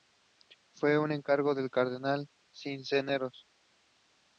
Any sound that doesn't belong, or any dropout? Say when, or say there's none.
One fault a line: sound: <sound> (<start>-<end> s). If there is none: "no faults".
no faults